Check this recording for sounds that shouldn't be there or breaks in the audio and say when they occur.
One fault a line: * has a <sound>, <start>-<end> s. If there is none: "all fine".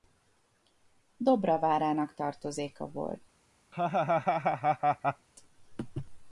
* has a laugh, 3.7-5.3 s